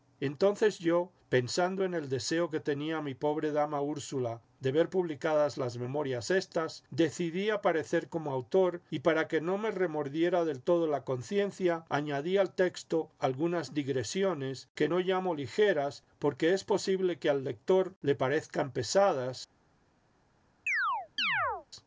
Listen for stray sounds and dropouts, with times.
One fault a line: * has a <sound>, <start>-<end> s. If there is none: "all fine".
* has a chirp, 20.7-21.7 s